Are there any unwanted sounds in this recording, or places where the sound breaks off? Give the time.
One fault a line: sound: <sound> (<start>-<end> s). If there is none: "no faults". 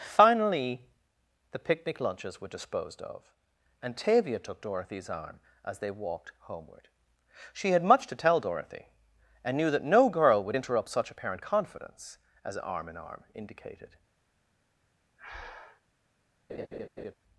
sound: breath (15.2-15.8 s)
sound: laugh (16.5-17.1 s)